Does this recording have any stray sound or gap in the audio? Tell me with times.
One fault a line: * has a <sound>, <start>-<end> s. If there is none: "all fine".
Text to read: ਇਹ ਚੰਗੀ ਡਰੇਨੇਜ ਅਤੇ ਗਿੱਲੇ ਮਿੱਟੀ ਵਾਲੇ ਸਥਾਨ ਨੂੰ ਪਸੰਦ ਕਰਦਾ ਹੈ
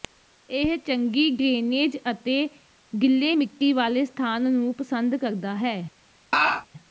* has a laugh, 6.3-6.7 s